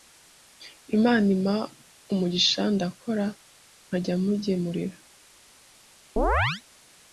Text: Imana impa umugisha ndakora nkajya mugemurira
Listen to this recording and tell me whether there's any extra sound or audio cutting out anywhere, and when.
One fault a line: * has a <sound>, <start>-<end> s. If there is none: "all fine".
* has a chirp, 6.2-6.6 s